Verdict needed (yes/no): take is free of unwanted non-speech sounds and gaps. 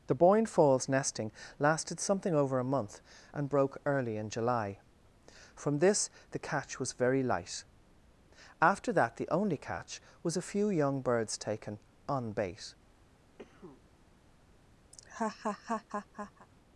no